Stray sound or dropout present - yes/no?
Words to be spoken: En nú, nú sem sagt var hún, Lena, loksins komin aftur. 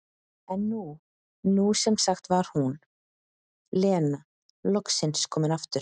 no